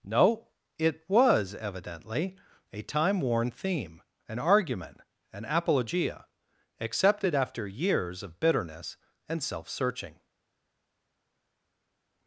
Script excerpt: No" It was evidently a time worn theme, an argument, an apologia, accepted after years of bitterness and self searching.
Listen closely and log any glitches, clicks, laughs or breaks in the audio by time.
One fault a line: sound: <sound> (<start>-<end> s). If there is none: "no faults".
no faults